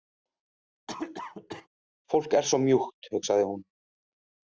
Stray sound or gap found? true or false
true